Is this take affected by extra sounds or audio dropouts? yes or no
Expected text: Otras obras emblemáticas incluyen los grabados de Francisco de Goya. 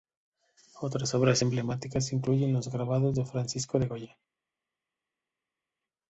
no